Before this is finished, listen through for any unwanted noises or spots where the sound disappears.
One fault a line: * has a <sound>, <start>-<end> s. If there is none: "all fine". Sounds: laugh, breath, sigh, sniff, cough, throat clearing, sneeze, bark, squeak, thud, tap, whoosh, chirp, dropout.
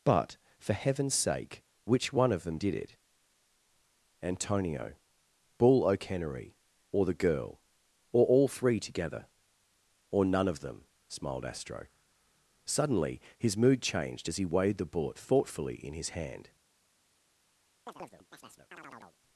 * has a chirp, 17.9-19.2 s